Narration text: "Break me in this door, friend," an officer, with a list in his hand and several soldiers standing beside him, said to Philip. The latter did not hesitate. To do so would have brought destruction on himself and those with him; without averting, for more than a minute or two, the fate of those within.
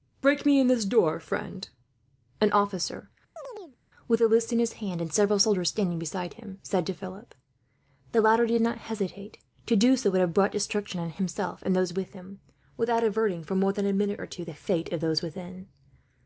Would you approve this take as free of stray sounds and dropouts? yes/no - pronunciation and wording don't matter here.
no